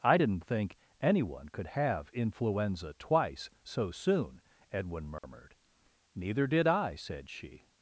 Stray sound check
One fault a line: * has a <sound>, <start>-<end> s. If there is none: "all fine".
* has a dropout, 5.2-5.2 s